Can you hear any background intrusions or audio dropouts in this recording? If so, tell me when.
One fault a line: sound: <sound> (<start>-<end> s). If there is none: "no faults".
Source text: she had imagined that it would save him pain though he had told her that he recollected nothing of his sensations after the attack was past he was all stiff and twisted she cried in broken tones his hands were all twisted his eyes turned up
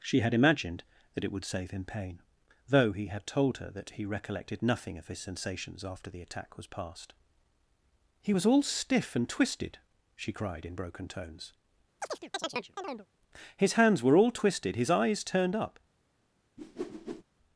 sound: chirp (12.0-13.1 s)
sound: whoosh (16.6-17.2 s)